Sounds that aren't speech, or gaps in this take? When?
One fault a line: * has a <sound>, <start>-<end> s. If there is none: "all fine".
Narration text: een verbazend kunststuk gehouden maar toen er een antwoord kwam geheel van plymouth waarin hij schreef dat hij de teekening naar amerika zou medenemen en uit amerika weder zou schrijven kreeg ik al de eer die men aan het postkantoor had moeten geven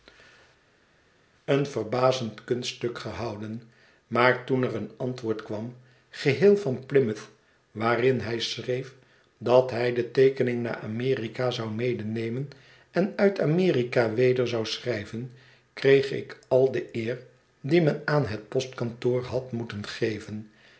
all fine